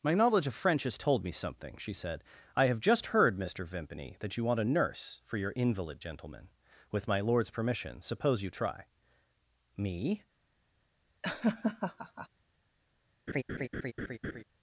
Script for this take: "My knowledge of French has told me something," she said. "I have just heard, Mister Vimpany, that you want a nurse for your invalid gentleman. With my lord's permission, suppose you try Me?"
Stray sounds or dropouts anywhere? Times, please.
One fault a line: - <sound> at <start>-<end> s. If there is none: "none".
- laugh at 11.2-12.3 s
- laugh at 13.3-14.4 s